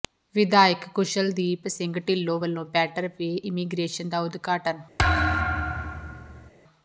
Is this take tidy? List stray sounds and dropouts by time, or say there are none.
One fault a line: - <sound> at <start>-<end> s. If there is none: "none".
- thud at 5.0-6.5 s